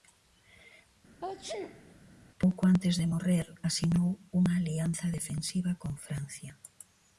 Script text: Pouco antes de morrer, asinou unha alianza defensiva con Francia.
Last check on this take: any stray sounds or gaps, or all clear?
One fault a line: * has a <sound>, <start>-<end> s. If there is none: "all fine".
* has a sneeze, 1.2-1.9 s